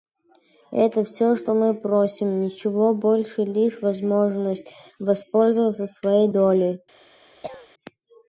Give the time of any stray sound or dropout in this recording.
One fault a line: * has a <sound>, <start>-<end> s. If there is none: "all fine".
* has a cough, 7.3-7.7 s